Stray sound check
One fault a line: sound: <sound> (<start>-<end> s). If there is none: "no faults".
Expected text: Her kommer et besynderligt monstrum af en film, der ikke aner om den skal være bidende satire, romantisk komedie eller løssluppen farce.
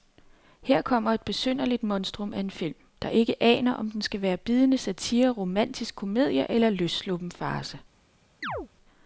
sound: chirp (8.4-8.7 s)